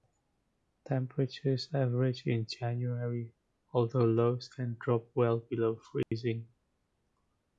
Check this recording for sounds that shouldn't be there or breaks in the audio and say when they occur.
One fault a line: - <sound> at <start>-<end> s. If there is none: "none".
- dropout at 6.0-6.1 s